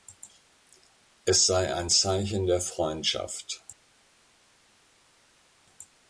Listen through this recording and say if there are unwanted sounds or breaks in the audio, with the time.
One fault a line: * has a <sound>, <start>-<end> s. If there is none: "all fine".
all fine